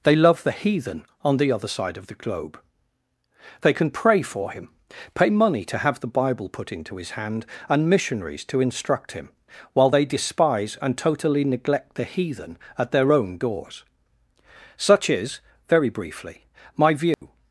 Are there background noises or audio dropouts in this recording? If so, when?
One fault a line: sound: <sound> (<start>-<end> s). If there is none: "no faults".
sound: dropout (17.1-17.2 s)